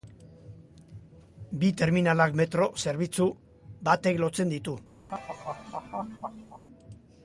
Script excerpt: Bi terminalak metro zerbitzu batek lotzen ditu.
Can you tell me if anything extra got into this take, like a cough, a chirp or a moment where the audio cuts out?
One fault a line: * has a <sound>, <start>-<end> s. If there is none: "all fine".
* has a laugh, 5.1-6.6 s